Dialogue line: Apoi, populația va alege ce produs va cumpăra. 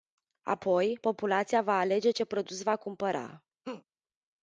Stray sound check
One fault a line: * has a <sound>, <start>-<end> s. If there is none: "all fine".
* has a laugh, 3.6-3.8 s